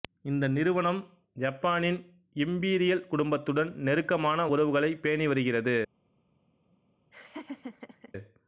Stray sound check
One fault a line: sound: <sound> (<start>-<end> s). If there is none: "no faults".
sound: laugh (7.1-8.1 s)